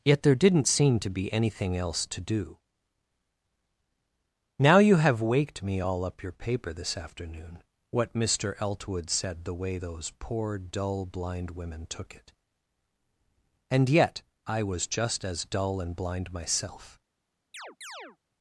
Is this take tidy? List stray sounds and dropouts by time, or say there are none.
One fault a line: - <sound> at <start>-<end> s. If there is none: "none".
- chirp at 17.5-18.2 s